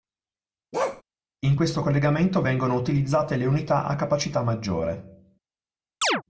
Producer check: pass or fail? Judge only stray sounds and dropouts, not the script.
fail